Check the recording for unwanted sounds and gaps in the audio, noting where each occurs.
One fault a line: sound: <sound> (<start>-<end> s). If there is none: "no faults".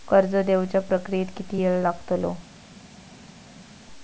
no faults